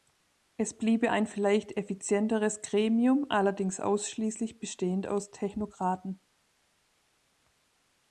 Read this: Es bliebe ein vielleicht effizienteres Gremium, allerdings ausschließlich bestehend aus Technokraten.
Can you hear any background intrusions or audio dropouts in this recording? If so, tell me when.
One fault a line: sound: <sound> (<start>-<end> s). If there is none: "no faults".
no faults